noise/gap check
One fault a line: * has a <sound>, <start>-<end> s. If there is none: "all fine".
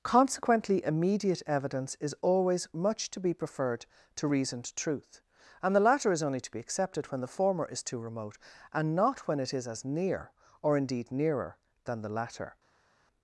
all fine